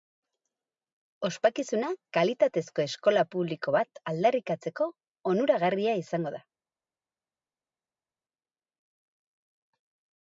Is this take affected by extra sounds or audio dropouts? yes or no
no